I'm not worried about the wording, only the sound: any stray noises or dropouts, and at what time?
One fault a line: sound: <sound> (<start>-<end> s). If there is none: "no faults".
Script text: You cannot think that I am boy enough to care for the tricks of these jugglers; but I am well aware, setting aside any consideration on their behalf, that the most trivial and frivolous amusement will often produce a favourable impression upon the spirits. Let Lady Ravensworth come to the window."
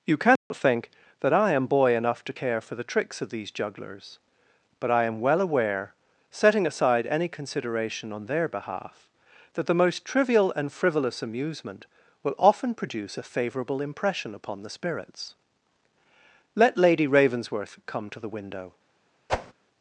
sound: dropout (0.4-0.5 s)
sound: whoosh (19.3-19.5 s)